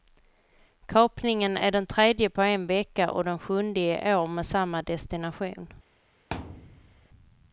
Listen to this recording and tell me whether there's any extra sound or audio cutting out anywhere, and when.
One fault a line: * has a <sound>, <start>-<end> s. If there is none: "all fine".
* has a thud, 6.3-7.1 s